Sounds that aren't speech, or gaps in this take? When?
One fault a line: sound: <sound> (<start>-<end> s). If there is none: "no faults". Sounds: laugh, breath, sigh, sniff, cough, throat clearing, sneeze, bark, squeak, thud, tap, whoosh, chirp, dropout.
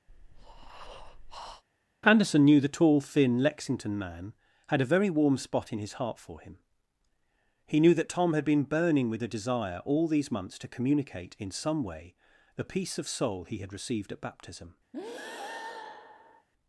sound: breath (0.1-1.6 s)
sound: breath (14.9-16.5 s)